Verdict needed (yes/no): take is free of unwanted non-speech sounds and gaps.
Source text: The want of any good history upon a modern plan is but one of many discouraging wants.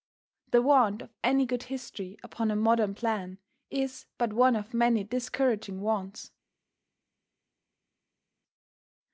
yes